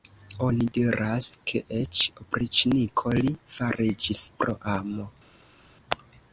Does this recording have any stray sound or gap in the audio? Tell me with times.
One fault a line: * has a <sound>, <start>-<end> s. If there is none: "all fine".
all fine